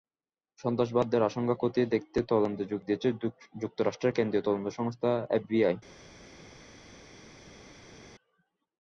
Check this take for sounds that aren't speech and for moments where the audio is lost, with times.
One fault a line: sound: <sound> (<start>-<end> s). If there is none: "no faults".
no faults